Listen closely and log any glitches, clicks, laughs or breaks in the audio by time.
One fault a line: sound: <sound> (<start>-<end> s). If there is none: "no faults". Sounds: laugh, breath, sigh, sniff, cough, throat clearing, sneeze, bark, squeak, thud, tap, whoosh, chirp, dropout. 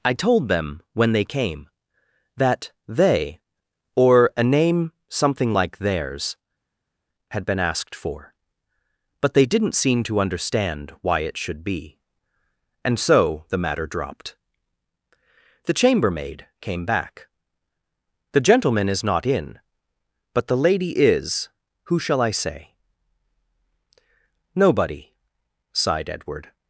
no faults